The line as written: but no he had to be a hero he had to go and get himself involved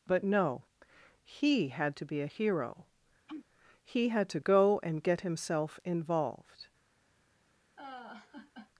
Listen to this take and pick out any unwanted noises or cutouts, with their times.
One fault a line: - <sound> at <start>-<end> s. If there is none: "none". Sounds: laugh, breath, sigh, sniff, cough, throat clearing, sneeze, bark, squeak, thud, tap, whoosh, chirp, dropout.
- sneeze at 3.3-3.5 s
- laugh at 7.8-8.7 s